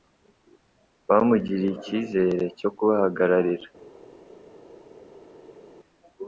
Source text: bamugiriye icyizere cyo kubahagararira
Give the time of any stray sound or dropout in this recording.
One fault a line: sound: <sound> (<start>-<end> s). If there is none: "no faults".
no faults